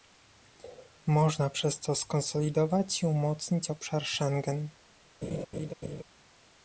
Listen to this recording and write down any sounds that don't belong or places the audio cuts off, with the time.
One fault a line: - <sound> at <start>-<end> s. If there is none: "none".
- laugh at 5.2-6.0 s